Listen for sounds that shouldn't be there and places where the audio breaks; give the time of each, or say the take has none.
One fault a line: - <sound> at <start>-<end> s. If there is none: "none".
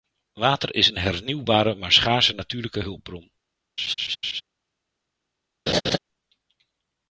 - laugh at 3.8-4.4 s
- laugh at 5.7-6.0 s